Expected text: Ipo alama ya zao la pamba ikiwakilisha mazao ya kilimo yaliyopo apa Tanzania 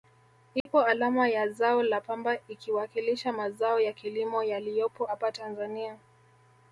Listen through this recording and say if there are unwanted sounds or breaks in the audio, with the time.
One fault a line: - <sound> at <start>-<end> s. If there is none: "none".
- dropout at 0.6-0.7 s